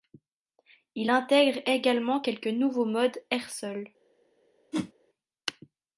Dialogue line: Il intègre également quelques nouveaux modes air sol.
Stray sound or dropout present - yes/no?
yes